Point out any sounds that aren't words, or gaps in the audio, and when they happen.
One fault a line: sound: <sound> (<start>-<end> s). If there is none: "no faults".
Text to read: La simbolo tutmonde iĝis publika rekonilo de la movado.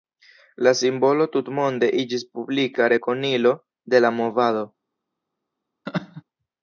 sound: laugh (5.9-6.2 s)